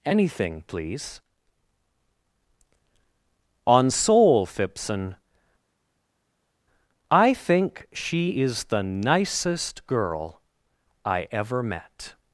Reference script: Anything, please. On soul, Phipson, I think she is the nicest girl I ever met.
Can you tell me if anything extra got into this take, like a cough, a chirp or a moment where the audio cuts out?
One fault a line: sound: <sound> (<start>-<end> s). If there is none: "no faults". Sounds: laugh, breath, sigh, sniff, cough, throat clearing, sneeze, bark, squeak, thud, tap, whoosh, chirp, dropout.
no faults